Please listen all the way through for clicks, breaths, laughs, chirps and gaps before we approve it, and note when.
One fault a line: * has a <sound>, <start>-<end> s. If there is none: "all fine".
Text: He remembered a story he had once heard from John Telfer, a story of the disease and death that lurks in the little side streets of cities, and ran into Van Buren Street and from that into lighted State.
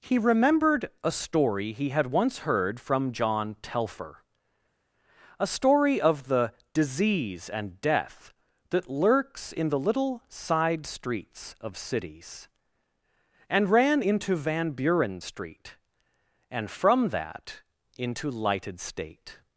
all fine